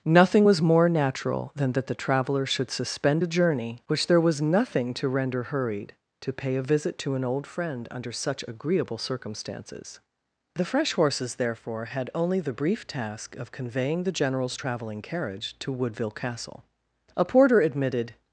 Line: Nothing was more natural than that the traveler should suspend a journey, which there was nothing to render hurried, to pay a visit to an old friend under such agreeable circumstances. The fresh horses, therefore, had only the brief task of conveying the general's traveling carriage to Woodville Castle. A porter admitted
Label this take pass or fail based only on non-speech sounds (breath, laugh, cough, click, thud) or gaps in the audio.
pass